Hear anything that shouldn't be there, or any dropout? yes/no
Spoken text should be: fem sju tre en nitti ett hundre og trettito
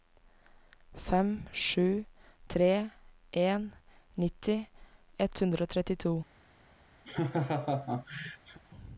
yes